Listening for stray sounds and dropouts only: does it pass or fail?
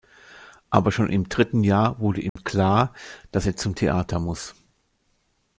fail